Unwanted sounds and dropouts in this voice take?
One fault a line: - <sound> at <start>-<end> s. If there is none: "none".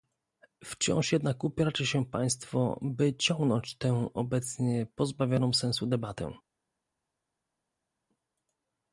none